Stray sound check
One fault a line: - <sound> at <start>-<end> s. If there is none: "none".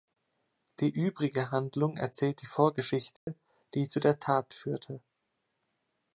- dropout at 3.2-3.3 s